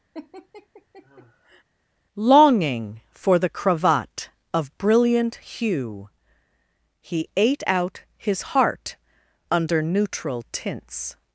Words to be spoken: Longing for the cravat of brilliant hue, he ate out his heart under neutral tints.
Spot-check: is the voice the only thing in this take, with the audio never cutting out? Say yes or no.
no